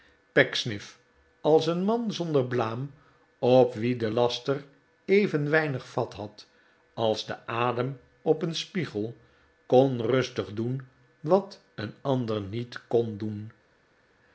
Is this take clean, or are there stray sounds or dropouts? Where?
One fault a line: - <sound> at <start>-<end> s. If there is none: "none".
none